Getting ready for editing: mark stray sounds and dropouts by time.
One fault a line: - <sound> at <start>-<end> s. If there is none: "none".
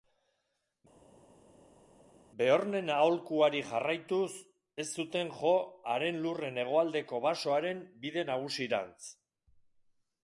none